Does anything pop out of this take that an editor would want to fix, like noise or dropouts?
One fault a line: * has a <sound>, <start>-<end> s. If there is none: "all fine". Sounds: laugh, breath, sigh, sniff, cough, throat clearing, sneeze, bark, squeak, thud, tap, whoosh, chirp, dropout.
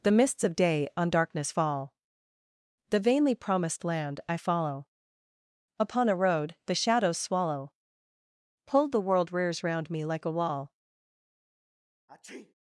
* has a sneeze, 12.1-12.5 s